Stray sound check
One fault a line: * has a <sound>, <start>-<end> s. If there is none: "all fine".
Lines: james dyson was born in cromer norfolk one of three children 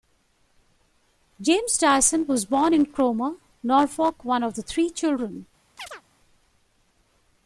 * has a chirp, 5.8-6.0 s